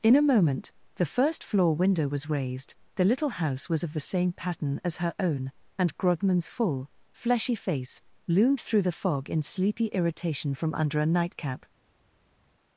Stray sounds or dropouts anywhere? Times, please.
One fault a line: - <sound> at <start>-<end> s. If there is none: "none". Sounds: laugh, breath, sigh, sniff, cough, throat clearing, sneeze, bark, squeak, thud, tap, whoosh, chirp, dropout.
none